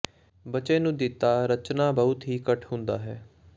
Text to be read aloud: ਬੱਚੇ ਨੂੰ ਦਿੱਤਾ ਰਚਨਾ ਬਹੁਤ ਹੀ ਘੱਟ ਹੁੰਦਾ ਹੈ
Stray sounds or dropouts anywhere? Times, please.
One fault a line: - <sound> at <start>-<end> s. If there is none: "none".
none